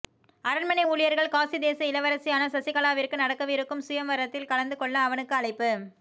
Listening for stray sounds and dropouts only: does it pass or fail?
pass